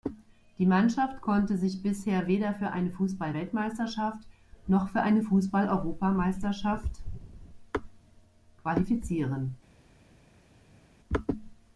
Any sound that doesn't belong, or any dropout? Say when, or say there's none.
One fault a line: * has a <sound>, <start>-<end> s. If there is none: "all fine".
all fine